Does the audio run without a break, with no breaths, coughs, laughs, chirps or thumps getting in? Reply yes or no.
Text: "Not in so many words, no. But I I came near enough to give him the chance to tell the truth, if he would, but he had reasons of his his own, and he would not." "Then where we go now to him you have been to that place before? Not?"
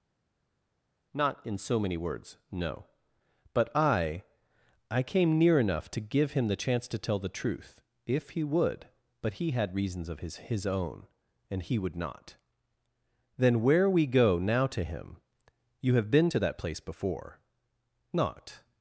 yes